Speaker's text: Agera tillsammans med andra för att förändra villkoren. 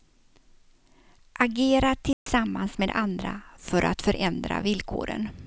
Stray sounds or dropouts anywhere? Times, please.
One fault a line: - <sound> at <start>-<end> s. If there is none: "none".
- dropout at 2.1-2.3 s